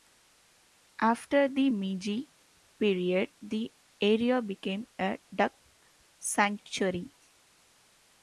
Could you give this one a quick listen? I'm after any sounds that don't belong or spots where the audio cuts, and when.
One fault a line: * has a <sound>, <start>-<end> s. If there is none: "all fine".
all fine